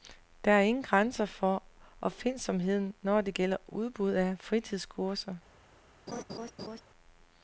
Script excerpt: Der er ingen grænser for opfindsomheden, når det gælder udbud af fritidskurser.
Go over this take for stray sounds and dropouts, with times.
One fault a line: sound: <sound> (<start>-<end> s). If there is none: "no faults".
sound: laugh (6.1-6.8 s)